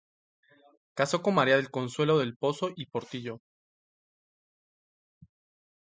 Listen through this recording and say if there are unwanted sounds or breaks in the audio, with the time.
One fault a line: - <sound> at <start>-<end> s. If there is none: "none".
none